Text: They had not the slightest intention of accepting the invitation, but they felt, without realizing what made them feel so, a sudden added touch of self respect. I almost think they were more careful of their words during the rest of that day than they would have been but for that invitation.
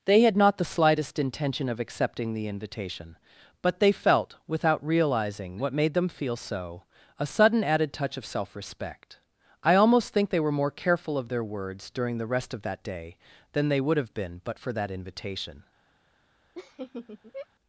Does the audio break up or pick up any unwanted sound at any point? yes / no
yes